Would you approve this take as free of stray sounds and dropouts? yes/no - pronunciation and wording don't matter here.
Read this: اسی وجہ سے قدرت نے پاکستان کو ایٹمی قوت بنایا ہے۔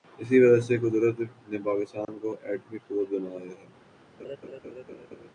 no